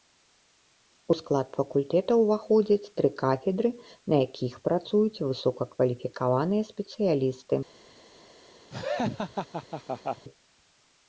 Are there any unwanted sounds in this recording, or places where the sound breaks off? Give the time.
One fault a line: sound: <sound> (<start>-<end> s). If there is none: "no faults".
sound: laugh (8.7-10.2 s)